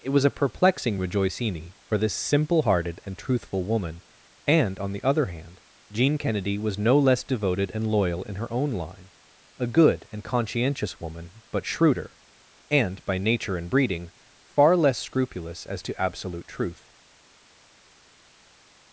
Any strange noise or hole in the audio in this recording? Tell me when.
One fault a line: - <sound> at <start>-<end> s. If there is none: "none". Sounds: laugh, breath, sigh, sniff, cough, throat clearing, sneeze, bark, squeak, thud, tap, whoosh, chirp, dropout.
none